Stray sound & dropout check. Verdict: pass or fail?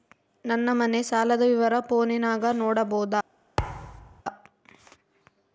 fail